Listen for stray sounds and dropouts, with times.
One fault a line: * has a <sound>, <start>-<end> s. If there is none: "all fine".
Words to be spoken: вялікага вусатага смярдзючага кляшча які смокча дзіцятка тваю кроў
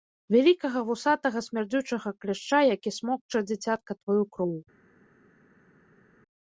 all fine